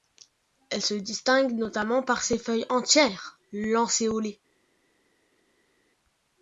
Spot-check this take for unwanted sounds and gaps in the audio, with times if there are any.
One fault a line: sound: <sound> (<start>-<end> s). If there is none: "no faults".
no faults